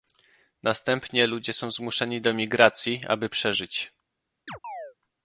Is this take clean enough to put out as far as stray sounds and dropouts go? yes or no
no